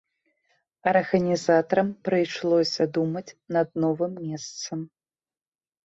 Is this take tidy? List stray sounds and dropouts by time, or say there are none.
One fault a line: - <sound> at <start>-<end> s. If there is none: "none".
none